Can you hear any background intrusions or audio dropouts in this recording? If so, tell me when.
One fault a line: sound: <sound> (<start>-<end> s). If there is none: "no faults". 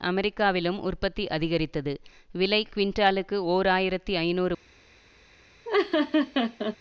sound: laugh (5.6-6.8 s)